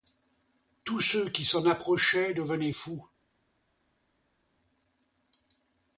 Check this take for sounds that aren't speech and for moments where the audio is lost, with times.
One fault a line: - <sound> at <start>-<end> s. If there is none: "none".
none